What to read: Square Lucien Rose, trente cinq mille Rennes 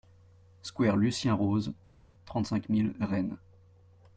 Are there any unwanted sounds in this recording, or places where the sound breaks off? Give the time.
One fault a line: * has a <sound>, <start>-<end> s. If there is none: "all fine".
all fine